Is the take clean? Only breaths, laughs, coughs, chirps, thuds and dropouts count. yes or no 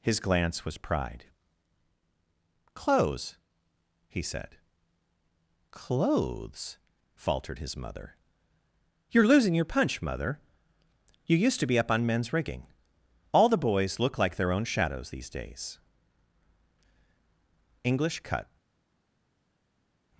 yes